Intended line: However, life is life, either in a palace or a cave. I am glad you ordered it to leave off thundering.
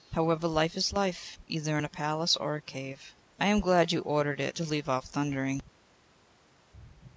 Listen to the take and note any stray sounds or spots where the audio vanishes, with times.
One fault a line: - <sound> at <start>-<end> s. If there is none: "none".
none